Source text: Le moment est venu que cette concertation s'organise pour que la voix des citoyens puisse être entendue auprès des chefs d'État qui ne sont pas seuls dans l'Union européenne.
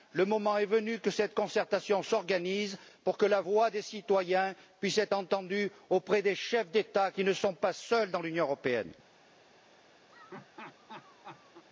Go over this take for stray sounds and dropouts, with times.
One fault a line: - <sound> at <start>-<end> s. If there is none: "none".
- laugh at 10.1-11.6 s